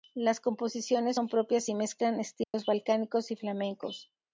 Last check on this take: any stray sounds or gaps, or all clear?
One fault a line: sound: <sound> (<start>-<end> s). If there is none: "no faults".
sound: dropout (2.4-2.5 s)